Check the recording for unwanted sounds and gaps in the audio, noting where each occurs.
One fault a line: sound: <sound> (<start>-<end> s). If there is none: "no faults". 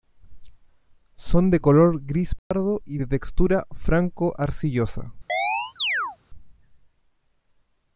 sound: dropout (2.4-2.5 s)
sound: chirp (5.3-6.2 s)